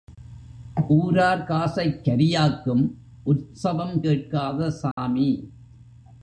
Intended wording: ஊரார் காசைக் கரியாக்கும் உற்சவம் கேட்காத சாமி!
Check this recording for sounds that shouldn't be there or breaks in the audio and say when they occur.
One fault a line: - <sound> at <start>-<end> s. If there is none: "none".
- dropout at 4.9-5.0 s